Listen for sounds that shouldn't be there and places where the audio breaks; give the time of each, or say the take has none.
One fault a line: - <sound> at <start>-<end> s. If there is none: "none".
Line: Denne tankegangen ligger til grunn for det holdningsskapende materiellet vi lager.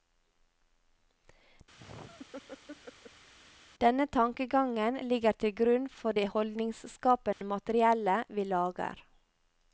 - laugh at 1.8-3.3 s
- dropout at 7.3-7.4 s